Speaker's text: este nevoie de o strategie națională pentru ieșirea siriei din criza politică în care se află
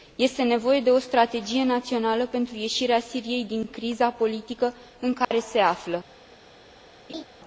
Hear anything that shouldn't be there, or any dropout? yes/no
yes